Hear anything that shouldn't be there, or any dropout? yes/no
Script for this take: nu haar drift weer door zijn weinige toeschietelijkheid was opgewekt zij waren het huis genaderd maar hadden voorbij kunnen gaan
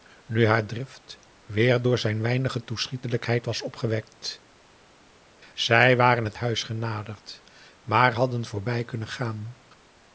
no